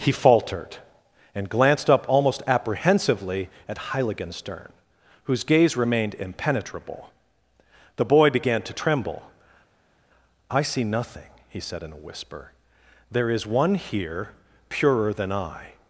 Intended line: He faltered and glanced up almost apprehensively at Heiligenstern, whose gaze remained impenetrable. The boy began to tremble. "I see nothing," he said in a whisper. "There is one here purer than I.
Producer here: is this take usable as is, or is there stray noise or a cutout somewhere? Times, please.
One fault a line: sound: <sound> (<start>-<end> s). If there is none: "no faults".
no faults